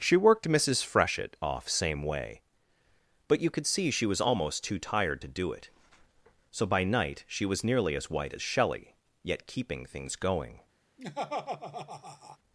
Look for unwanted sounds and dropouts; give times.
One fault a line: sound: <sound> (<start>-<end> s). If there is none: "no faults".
sound: laugh (11.0-12.4 s)